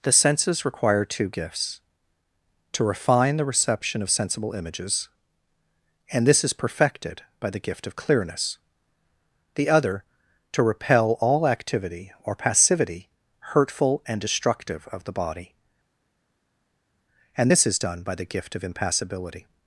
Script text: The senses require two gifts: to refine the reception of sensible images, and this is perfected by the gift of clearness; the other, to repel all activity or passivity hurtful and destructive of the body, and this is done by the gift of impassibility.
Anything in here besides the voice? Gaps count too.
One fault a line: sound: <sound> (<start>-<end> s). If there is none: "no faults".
no faults